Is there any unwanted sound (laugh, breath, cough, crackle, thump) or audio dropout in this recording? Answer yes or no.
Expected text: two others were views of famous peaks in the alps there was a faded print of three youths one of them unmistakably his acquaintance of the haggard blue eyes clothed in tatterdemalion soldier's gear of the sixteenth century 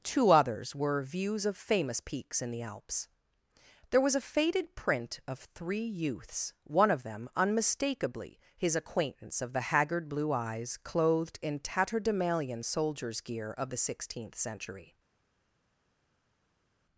no